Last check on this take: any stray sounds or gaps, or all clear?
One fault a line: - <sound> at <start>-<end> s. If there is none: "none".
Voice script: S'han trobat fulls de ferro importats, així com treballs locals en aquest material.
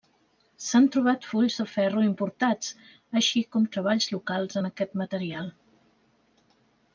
none